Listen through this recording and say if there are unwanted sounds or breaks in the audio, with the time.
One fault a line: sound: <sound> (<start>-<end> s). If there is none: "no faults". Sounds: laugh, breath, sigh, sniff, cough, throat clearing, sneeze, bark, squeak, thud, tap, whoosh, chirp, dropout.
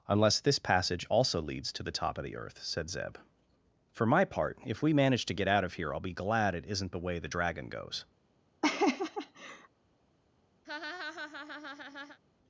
sound: laugh (8.6-9.7 s)
sound: laugh (10.6-12.2 s)